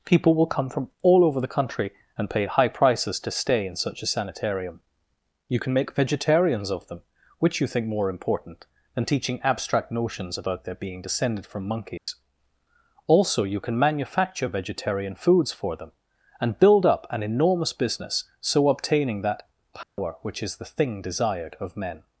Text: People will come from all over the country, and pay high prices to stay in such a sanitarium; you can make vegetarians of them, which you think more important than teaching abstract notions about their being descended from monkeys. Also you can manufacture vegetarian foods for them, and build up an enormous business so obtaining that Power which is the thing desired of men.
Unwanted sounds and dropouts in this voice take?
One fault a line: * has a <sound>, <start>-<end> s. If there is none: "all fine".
* has a dropout, 12.0-12.1 s
* has a dropout, 19.8-20.0 s